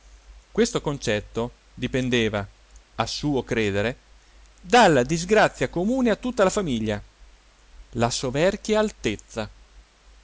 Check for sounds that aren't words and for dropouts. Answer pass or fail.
pass